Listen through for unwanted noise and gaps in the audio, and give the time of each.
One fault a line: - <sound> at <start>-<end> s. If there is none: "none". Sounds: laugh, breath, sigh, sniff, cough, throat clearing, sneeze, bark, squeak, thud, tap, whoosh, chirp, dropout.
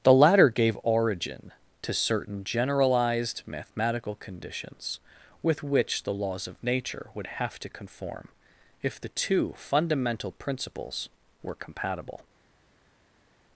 none